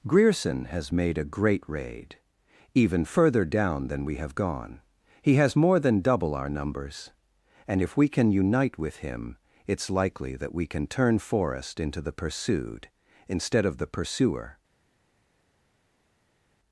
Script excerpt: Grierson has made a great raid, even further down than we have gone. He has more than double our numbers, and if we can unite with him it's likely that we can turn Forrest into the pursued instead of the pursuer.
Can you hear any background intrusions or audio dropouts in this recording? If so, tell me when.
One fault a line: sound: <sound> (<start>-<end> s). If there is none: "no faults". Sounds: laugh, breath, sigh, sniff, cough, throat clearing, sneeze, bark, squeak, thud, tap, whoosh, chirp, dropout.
no faults